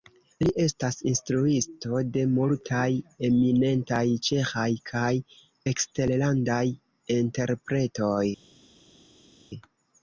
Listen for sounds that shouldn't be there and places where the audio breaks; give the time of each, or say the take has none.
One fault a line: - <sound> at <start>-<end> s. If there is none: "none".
none